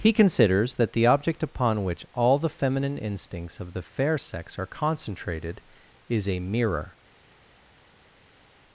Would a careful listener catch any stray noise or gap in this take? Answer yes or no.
no